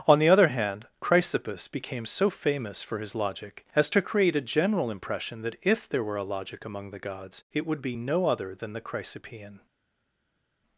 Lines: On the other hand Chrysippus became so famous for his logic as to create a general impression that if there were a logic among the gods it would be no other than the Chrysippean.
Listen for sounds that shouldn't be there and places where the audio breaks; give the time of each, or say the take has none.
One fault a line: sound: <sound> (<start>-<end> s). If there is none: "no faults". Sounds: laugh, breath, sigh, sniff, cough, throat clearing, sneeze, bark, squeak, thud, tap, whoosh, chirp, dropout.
no faults